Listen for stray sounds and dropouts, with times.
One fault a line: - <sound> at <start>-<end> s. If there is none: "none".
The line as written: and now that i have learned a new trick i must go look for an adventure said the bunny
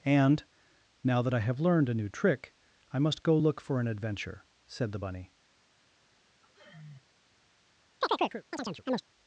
- sigh at 6.4-7.1 s
- chirp at 8.0-9.0 s